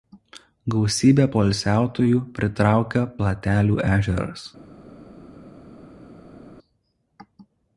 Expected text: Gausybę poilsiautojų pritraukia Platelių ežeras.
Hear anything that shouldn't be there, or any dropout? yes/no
no